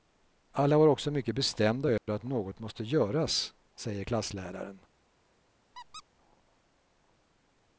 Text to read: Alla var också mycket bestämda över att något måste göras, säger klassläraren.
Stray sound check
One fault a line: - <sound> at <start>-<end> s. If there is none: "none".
- dropout at 2.0-2.1 s
- squeak at 5.7-6.0 s